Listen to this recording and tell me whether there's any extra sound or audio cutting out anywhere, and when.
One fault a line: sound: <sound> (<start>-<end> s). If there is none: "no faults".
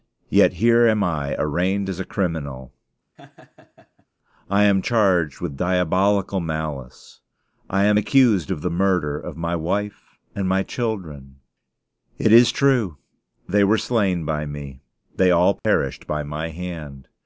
sound: laugh (3.2-4.1 s)
sound: dropout (15.6-15.6 s)